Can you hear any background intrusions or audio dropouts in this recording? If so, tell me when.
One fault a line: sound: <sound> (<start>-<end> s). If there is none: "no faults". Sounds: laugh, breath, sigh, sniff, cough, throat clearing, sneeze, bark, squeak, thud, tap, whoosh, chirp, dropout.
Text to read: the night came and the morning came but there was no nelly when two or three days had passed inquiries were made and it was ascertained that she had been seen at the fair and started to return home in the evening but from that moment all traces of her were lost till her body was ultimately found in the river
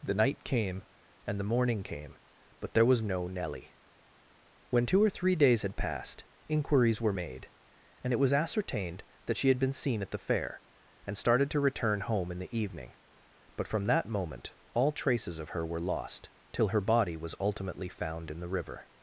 no faults